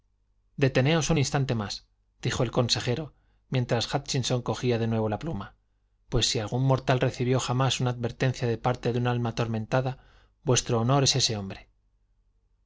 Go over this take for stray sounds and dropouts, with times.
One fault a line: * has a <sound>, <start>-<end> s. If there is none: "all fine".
all fine